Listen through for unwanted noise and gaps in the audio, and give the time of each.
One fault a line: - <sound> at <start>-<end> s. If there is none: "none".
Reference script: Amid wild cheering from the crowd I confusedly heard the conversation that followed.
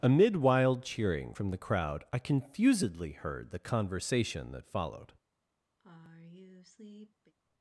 - sigh at 5.8-7.3 s